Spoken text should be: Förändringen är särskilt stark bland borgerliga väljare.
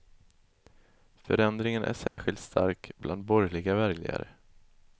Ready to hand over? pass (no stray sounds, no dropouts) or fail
fail